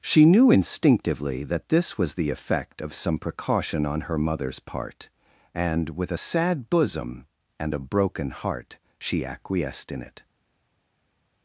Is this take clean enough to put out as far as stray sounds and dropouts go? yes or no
yes